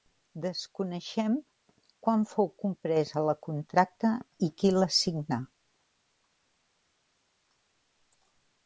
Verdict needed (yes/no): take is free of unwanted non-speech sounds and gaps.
yes